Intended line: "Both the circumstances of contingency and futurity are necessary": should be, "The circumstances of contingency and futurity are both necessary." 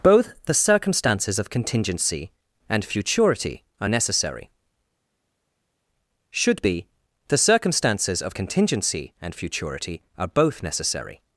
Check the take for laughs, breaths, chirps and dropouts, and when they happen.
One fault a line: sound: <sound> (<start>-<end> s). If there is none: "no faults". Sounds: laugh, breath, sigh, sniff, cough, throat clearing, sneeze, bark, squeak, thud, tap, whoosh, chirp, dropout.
no faults